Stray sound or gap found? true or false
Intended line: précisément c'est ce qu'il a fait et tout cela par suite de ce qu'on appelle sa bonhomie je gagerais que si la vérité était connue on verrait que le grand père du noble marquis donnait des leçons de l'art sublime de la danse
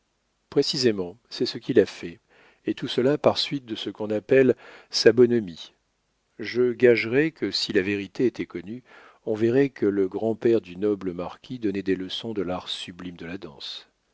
false